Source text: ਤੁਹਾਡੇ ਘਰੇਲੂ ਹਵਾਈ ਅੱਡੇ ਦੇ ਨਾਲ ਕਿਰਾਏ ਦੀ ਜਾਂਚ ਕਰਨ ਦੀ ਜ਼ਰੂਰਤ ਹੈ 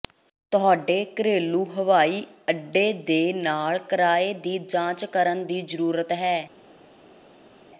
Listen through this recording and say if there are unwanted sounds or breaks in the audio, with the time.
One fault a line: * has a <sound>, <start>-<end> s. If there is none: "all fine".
all fine